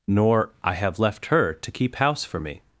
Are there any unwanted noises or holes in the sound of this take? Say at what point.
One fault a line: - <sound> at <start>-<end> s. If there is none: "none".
none